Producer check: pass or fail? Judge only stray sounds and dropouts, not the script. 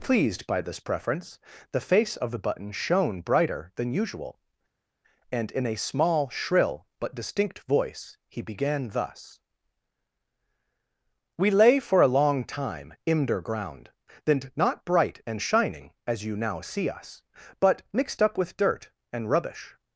pass